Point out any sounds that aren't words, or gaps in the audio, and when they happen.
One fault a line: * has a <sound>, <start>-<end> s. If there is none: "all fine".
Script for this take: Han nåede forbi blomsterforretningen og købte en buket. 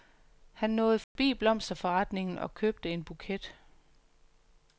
* has a dropout, 1.0-1.2 s